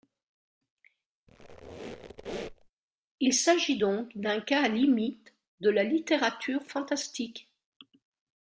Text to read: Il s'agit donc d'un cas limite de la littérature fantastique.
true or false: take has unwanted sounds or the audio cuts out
true